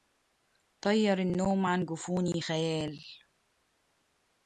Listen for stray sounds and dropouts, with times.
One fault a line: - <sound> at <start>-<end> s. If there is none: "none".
none